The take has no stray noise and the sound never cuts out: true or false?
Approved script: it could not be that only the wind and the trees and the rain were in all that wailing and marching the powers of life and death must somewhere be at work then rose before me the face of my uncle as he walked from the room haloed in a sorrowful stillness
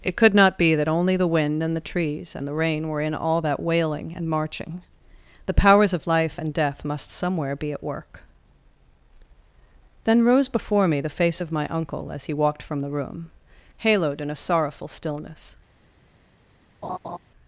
false